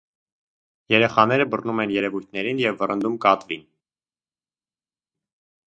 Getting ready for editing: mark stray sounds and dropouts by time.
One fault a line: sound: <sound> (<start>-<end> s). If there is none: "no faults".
no faults